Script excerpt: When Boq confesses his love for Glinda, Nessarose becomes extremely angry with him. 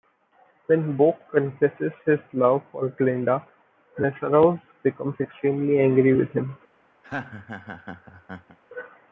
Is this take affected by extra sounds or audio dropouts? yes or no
yes